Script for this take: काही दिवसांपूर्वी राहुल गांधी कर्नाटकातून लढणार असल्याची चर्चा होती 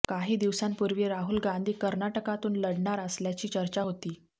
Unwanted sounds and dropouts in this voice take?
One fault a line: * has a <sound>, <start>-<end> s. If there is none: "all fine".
all fine